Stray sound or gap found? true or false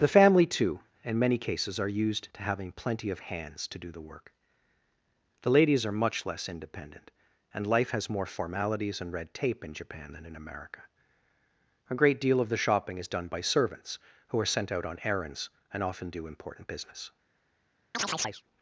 true